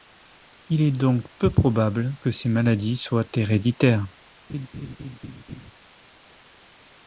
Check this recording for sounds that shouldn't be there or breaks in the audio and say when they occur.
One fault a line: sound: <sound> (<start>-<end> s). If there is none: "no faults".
sound: laugh (4.5-5.7 s)